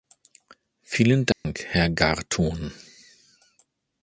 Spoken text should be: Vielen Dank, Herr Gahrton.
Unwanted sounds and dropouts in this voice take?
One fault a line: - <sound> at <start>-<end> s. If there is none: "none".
- dropout at 1.3-1.5 s